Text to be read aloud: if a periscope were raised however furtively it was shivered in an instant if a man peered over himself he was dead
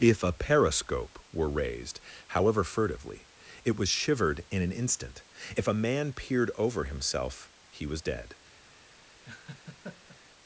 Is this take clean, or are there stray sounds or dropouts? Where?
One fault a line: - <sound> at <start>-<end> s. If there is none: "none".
- laugh at 9.2-10.2 s